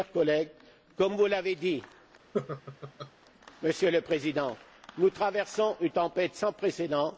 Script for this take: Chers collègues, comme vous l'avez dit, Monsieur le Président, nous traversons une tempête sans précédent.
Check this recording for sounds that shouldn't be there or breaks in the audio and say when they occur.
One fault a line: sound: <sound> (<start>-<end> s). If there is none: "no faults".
sound: laugh (2.3-3.1 s)